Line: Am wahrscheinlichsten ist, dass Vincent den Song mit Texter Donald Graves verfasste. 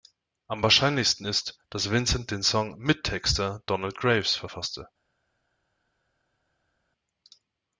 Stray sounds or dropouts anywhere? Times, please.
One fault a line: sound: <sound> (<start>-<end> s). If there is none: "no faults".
no faults